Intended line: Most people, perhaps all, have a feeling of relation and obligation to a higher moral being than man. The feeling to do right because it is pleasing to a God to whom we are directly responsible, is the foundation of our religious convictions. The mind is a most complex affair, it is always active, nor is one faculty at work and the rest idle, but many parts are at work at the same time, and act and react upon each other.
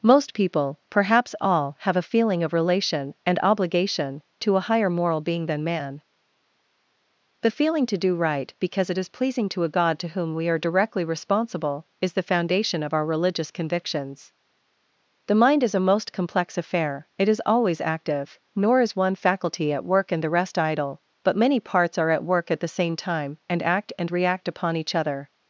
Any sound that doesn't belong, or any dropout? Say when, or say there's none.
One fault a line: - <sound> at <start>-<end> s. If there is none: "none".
none